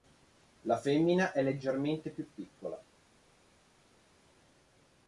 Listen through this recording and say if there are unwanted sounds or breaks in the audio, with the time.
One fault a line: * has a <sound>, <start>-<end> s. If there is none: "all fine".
all fine